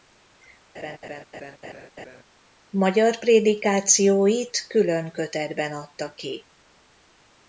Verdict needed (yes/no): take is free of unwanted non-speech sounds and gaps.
no